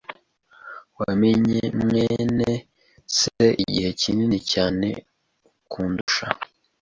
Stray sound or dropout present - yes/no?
yes